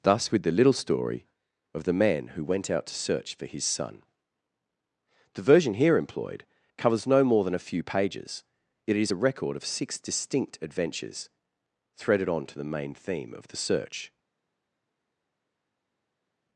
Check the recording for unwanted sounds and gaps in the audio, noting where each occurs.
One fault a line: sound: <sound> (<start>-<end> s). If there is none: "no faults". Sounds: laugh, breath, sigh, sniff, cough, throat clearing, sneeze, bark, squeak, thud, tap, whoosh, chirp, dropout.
no faults